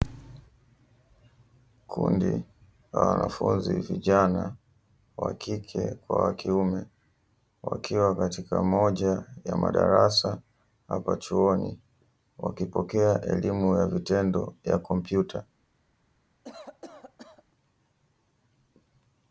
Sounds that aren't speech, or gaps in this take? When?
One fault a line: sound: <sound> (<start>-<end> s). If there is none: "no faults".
sound: cough (16.4-17.4 s)